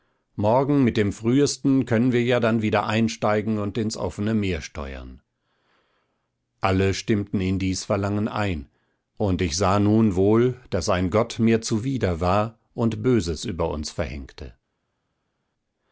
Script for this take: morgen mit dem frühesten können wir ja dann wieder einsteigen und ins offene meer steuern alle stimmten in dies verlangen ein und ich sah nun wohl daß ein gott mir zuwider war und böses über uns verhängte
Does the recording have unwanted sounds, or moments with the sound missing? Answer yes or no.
no